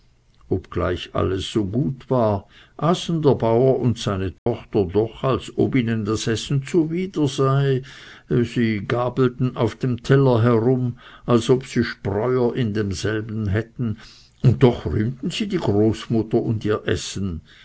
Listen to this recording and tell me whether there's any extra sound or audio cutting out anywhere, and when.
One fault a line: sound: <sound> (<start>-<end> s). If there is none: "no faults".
sound: dropout (4.4-4.5 s)